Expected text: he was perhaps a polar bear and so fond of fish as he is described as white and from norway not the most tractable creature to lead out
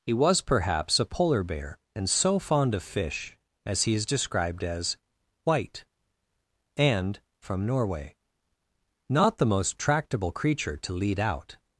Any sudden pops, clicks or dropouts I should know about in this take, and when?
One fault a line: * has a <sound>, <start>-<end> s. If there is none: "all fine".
all fine